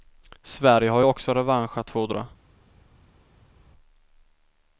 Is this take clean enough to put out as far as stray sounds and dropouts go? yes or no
yes